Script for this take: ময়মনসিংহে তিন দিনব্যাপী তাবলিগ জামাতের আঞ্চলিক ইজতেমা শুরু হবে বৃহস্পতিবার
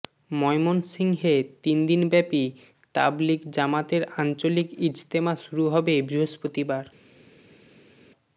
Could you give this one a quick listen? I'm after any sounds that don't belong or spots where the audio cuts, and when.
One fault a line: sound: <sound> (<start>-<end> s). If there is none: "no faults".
no faults